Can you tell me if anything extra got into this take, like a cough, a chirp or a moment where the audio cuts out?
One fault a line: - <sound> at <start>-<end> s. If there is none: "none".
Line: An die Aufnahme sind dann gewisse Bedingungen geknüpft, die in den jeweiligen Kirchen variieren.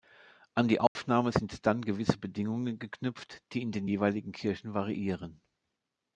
- dropout at 0.9-1.0 s